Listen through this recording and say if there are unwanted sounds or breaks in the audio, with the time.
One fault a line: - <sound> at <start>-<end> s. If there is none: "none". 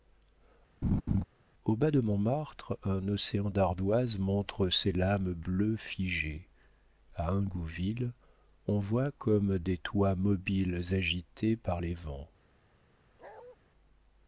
- laugh at 0.8-1.2 s
- bark at 13.2-13.6 s